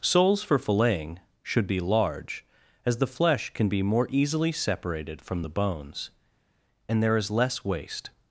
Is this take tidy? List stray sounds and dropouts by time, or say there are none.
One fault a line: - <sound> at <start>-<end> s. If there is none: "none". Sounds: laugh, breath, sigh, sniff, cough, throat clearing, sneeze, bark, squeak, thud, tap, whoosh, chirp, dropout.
none